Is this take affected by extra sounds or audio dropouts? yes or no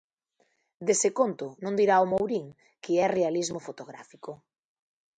no